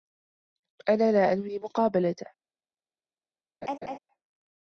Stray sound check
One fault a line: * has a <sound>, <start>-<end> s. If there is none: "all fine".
* has a laugh, 3.6-4.0 s